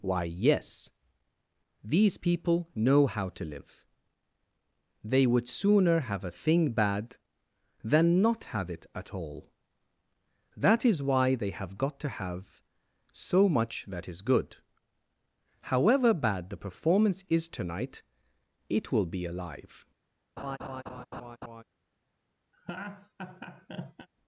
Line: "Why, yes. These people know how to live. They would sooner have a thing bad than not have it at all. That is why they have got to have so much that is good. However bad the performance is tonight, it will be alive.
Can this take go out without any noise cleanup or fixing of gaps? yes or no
no